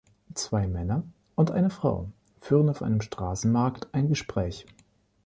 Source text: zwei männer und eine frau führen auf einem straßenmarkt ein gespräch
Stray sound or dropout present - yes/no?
no